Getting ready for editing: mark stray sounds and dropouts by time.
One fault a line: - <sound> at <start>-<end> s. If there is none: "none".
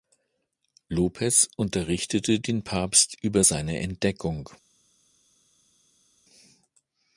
none